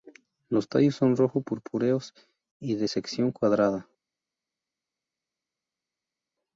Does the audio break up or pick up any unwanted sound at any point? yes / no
no